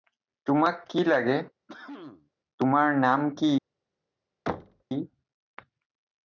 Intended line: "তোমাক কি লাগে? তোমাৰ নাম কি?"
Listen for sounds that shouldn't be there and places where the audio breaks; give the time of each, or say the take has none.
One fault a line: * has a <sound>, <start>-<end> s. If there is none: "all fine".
* has a cough, 1.7-2.3 s
* has a thud, 4.5-4.8 s